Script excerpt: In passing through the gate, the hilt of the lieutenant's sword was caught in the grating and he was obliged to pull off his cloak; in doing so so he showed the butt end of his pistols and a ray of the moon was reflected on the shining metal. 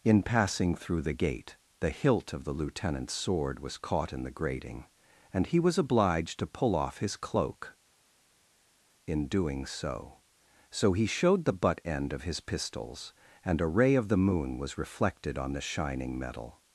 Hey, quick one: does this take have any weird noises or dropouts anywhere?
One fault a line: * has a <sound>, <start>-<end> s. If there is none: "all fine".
all fine